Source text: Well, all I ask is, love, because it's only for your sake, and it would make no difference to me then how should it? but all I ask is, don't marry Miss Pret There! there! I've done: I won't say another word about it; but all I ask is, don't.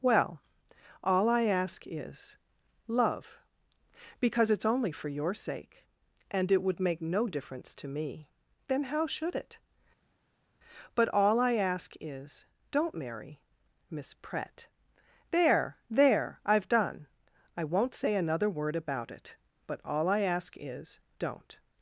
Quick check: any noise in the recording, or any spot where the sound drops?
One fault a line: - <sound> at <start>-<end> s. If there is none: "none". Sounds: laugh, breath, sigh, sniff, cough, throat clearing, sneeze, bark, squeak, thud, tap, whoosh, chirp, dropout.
none